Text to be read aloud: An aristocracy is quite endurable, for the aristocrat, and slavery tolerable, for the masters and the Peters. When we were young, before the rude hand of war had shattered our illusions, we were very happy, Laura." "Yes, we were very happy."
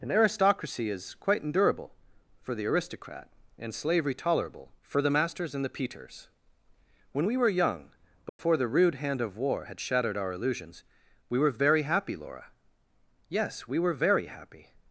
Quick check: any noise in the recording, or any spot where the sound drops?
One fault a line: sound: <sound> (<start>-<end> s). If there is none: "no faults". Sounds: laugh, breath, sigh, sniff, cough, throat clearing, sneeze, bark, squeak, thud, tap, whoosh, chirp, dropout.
sound: dropout (8.3-8.4 s)